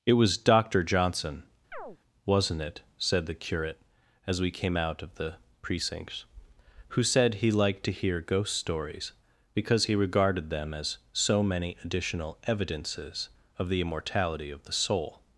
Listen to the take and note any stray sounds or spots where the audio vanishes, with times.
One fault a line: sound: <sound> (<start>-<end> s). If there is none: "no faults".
sound: chirp (1.7-2.0 s)